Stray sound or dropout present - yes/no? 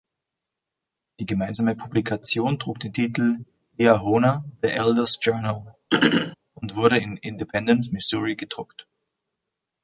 yes